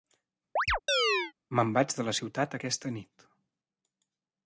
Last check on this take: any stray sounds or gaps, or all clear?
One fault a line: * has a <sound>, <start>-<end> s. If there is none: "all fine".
* has a chirp, 0.6-1.3 s